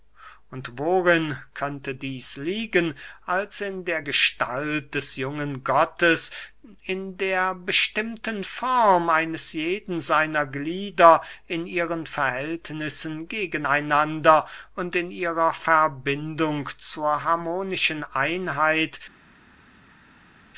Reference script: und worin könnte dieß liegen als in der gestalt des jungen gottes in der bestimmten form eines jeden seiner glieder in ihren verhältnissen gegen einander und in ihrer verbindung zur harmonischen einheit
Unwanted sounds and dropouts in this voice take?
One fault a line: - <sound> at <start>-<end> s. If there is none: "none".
none